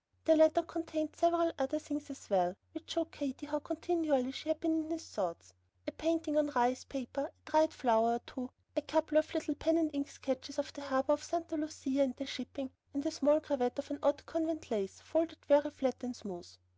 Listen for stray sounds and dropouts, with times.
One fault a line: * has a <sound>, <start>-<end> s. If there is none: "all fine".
all fine